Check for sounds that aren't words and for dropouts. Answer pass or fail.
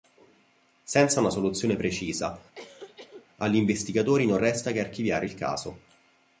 fail